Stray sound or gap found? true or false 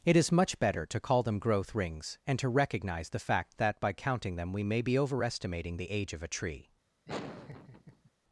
true